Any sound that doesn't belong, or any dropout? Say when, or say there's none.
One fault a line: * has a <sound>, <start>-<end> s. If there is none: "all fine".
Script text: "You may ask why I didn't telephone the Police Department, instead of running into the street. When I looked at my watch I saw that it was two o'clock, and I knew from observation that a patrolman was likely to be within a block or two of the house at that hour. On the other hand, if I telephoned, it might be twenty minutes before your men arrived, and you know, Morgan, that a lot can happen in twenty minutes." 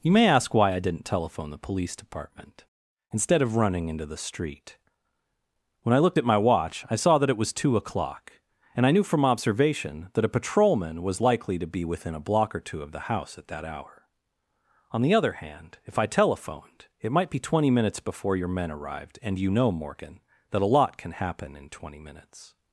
all fine